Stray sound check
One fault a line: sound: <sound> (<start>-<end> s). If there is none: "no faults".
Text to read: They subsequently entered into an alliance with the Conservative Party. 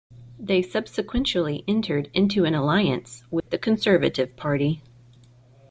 sound: dropout (3.4-3.5 s)